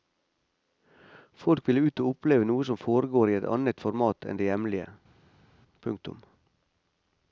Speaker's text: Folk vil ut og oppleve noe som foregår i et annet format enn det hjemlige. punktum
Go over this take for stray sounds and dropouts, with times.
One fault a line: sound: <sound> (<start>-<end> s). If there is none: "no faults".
no faults